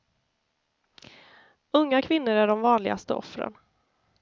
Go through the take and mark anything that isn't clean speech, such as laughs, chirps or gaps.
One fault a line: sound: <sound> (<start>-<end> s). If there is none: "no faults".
no faults